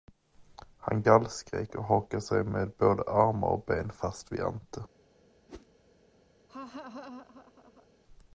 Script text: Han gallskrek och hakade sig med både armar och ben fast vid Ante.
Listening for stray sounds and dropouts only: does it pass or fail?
fail